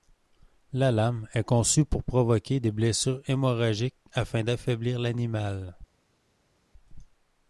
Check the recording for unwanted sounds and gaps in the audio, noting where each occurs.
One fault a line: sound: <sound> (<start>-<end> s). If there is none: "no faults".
no faults